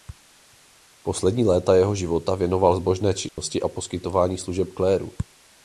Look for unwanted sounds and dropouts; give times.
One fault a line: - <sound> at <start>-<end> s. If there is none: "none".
- dropout at 3.3-3.4 s